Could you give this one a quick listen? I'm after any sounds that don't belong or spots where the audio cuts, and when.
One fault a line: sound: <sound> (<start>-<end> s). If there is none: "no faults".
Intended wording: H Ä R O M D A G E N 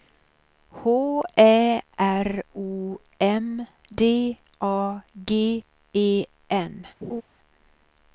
sound: laugh (7.0-7.2 s)